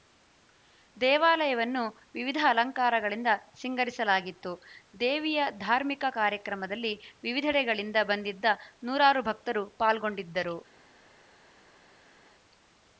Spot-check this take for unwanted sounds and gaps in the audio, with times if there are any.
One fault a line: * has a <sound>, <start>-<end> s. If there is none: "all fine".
all fine